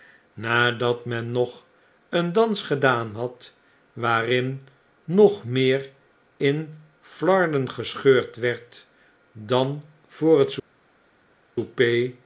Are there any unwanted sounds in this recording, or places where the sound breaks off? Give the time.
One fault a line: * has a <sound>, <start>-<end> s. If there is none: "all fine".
all fine